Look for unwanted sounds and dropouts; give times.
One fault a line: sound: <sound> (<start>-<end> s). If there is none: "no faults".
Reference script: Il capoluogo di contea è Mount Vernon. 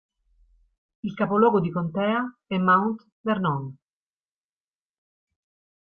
no faults